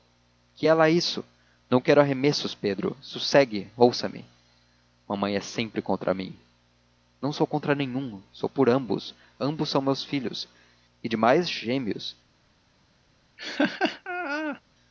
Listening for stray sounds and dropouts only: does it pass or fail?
fail